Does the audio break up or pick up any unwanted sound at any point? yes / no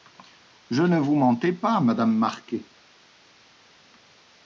no